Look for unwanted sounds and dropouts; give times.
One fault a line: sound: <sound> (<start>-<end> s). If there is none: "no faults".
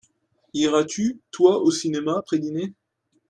no faults